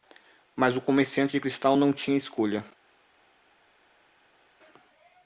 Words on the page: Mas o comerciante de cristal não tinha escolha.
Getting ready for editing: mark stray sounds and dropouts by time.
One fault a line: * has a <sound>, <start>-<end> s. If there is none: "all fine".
all fine